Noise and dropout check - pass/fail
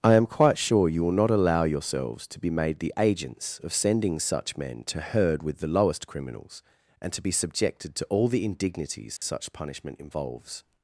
fail